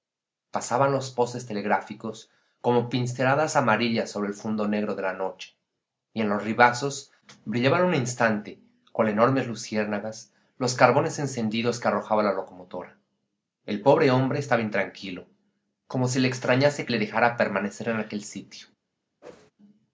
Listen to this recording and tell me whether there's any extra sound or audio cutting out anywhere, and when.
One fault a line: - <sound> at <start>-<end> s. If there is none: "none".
- whoosh at 19.2-19.5 s